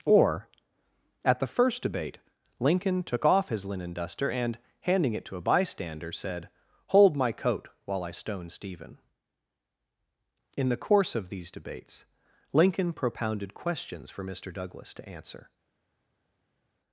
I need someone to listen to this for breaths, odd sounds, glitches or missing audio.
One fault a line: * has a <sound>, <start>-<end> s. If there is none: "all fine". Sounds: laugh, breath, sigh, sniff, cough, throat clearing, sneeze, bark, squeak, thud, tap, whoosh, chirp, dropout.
all fine